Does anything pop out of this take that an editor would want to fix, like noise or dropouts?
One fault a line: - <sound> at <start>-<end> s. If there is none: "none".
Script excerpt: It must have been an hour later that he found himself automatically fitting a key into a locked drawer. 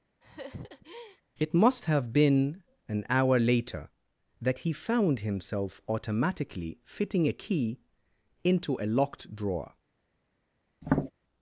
- laugh at 0.2-1.2 s
- tap at 10.8-11.1 s